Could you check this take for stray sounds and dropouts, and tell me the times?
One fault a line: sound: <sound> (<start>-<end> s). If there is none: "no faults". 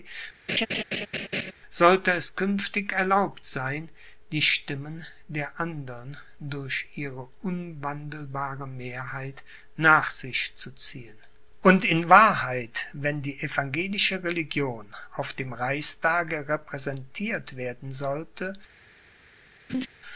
sound: laugh (0.5-1.5 s)
sound: laugh (19.7-19.9 s)